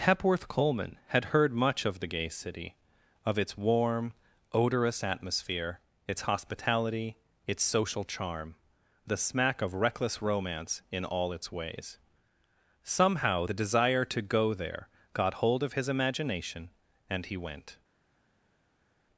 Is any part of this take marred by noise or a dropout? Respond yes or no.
no